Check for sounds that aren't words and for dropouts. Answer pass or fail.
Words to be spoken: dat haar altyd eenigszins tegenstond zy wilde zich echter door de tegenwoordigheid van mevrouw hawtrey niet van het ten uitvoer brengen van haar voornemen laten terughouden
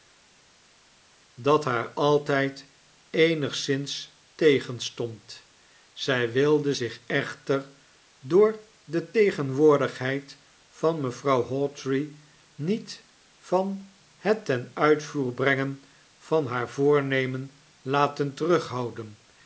pass